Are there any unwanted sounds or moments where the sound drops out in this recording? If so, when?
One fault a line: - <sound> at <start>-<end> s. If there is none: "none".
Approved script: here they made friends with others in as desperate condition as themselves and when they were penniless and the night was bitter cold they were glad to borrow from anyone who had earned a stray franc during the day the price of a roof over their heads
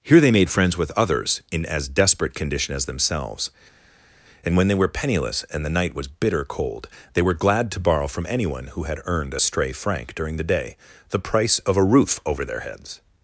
none